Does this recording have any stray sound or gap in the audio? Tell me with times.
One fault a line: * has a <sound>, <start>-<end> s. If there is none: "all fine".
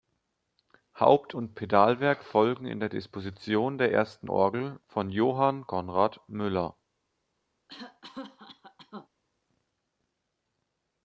* has a cough, 7.7-9.1 s